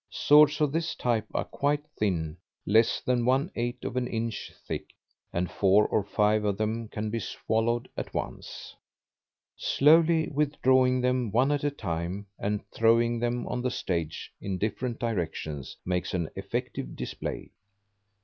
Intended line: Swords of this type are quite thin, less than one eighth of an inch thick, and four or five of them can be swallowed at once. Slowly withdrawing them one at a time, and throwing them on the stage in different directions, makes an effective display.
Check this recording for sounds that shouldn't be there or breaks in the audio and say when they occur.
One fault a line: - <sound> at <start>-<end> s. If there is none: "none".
none